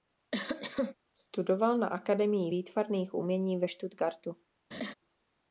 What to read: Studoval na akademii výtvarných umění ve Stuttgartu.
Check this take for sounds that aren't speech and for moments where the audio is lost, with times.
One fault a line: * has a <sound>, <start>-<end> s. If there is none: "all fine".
* has a cough, 0.3-1.0 s
* has a laugh, 4.7-4.9 s